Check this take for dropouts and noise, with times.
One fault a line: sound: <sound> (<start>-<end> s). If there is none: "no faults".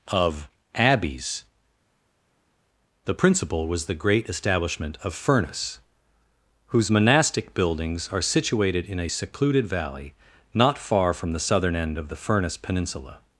no faults